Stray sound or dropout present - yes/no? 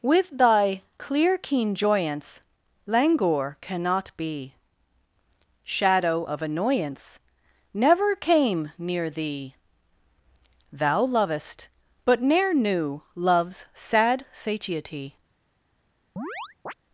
yes